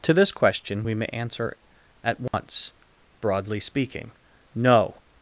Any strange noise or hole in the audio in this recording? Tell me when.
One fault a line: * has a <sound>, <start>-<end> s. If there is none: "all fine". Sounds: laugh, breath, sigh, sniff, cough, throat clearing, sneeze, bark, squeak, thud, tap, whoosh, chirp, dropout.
* has a dropout, 2.3-2.3 s